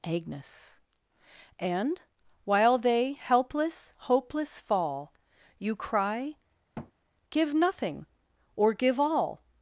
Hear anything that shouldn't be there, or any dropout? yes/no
yes